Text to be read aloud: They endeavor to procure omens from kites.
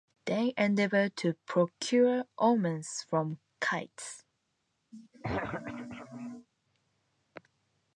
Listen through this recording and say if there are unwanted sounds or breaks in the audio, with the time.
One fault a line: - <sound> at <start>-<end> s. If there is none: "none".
- throat clearing at 4.9-6.5 s